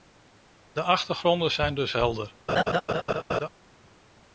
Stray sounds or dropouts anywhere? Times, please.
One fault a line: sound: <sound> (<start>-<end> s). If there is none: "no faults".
sound: laugh (2.5-3.5 s)